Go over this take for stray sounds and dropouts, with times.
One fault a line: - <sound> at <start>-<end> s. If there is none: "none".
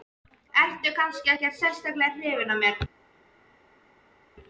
none